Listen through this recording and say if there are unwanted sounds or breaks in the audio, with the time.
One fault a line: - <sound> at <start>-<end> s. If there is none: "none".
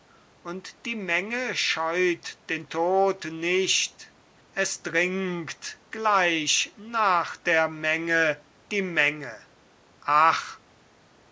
none